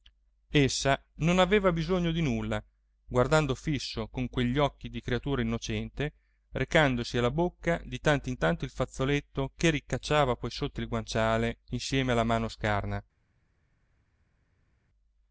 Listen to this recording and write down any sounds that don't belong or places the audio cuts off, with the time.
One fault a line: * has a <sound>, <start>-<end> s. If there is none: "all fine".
all fine